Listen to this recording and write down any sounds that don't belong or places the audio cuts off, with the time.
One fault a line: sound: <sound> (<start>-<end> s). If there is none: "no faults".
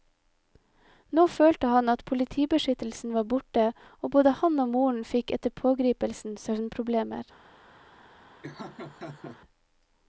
sound: laugh (8.4-9.4 s)